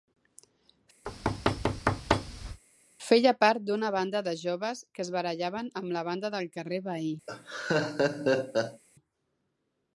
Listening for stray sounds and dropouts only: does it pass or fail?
fail